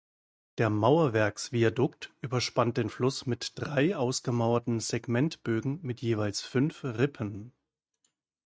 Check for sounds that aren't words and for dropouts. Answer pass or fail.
pass